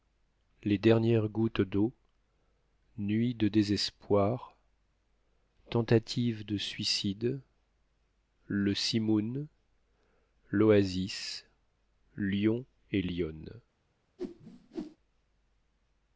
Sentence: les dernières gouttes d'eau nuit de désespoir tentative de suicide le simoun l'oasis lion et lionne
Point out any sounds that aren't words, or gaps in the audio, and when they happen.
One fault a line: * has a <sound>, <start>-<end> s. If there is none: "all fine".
* has a whoosh, 14.2-15.0 s